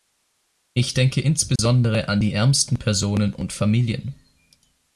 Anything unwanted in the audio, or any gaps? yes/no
yes